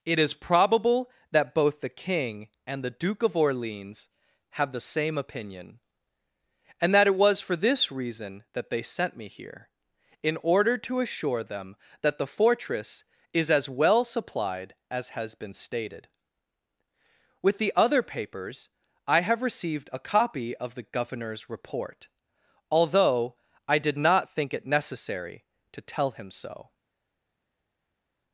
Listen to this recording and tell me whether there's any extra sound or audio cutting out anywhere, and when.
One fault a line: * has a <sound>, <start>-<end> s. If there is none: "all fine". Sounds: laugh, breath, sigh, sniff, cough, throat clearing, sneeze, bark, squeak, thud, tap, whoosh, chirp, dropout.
all fine